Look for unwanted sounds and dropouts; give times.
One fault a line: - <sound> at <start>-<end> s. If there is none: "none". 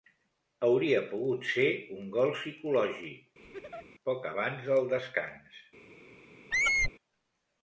- laugh at 3.4-3.9 s
- squeak at 6.5-6.9 s